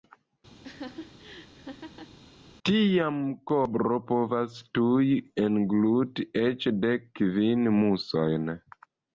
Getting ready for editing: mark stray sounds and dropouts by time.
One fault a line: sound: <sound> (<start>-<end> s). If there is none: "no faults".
sound: laugh (0.6-2.2 s)